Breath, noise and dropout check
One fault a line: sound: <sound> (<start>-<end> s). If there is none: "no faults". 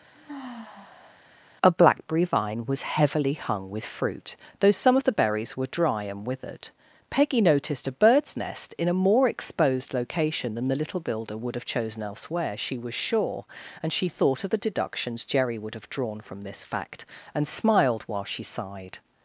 sound: sigh (0.1-1.2 s)